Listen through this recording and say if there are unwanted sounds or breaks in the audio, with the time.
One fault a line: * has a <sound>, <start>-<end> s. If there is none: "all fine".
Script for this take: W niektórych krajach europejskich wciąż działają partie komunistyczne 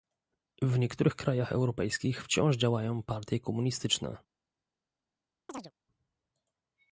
* has a chirp, 5.5-5.7 s